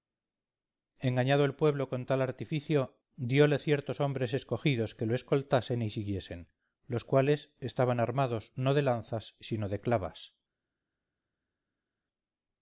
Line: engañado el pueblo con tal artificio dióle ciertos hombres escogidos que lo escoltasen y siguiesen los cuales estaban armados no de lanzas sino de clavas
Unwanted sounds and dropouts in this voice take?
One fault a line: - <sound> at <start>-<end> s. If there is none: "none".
none